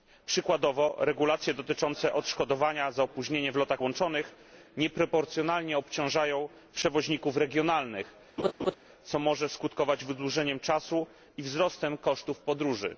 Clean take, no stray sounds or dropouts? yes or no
no